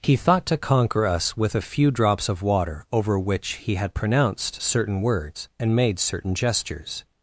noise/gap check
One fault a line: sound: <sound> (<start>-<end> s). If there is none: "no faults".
no faults